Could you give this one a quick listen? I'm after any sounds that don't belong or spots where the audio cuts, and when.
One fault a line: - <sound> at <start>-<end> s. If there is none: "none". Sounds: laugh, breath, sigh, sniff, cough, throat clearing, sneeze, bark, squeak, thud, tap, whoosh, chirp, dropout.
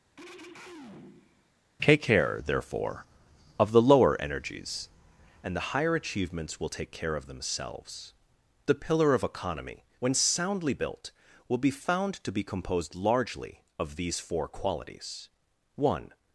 - throat clearing at 0.2-1.5 s